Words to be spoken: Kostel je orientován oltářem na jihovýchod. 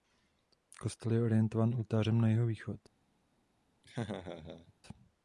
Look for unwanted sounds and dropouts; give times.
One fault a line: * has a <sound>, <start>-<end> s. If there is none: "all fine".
* has a laugh, 3.8-4.7 s